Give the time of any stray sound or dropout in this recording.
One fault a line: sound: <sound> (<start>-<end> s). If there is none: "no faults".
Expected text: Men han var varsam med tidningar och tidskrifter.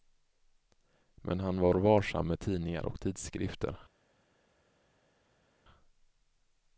no faults